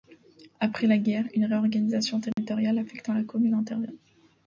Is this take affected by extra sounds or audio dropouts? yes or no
yes